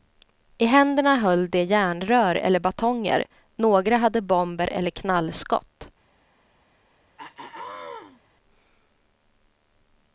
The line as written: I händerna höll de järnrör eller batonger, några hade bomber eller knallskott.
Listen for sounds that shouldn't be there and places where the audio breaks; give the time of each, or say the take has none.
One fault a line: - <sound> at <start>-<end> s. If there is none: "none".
- throat clearing at 7.2-8.2 s